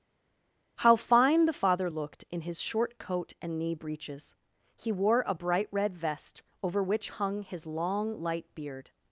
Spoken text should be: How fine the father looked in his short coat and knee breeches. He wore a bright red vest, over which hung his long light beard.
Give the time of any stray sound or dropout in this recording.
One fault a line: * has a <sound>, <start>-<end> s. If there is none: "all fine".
all fine